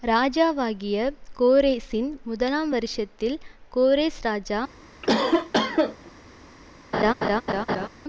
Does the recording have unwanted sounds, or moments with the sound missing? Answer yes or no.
yes